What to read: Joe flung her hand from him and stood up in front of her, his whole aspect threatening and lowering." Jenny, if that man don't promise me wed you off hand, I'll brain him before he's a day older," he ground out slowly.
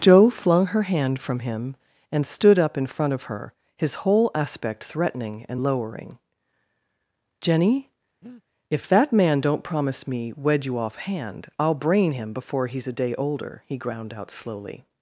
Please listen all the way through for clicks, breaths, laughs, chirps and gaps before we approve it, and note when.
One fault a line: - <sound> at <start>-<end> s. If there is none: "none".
- breath at 8.2-8.4 s